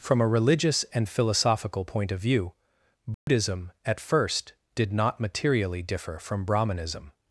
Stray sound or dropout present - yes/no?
yes